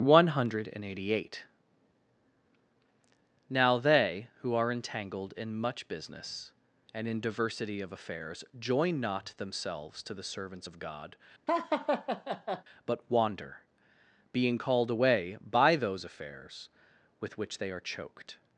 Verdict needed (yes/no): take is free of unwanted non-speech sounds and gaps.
no